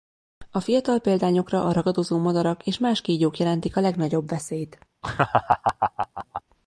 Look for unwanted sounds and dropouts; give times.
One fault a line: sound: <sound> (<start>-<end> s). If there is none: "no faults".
sound: laugh (5.0-6.4 s)